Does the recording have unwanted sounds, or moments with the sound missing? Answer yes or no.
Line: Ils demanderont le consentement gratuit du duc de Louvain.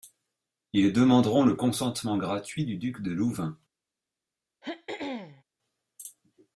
yes